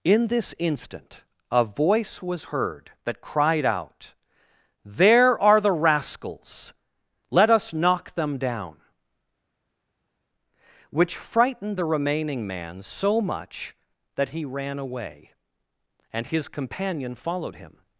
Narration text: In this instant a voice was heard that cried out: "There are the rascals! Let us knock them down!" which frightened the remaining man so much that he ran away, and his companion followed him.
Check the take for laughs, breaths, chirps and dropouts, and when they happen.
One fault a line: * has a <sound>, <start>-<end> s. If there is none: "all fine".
all fine